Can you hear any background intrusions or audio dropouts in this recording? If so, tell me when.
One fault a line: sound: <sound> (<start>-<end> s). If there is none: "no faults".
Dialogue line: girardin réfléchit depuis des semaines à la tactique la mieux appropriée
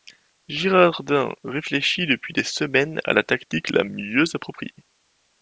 no faults